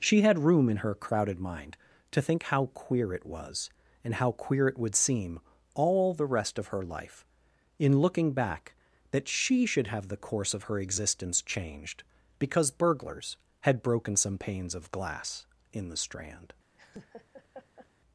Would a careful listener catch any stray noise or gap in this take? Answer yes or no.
yes